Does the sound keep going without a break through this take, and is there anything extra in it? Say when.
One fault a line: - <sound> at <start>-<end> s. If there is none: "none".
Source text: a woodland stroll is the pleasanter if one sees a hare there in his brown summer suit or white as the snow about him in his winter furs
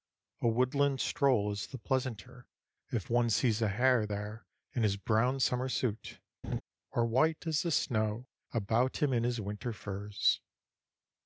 - laugh at 6.4-6.6 s